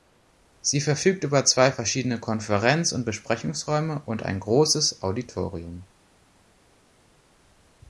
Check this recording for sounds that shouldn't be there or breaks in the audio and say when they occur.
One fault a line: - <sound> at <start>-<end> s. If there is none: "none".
none